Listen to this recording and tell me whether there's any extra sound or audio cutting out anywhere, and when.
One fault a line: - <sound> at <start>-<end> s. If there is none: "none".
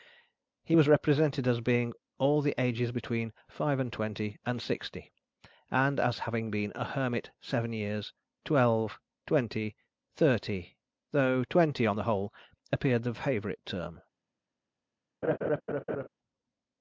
- laugh at 15.2-16.1 s